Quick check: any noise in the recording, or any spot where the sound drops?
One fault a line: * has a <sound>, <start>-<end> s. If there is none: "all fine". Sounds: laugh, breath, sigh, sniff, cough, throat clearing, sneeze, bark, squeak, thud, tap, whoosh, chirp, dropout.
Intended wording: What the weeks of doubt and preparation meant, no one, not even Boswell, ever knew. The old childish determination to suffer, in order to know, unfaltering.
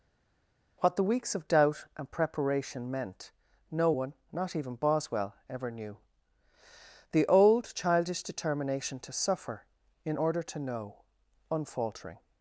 all fine